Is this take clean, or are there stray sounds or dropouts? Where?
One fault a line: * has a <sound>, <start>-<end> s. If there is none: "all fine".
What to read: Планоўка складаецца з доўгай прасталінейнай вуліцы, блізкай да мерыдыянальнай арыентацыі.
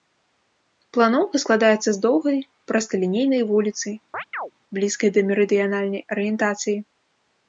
* has a chirp, 4.1-4.5 s